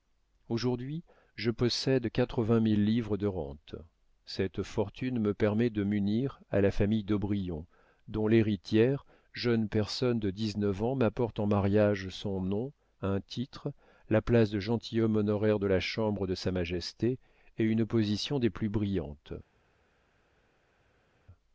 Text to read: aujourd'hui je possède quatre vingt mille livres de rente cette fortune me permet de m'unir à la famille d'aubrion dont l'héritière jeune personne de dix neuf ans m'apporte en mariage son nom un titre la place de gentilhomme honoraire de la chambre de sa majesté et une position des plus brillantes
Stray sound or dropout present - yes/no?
no